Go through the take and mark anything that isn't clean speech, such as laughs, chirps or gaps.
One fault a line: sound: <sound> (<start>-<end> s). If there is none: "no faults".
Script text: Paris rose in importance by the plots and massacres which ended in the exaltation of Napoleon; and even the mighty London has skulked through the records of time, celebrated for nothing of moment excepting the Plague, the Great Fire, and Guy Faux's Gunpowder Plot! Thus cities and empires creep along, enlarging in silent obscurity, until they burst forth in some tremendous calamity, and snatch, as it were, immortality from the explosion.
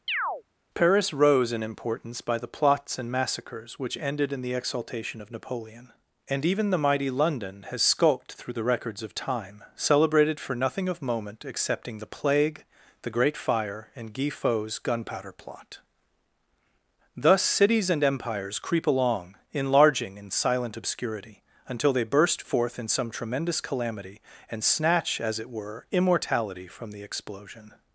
sound: chirp (0.1-0.4 s)